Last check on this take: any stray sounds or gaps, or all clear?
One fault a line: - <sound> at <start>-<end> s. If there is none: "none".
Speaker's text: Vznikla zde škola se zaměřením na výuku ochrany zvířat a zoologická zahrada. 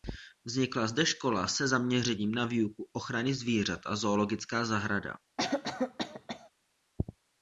- cough at 5.4-6.5 s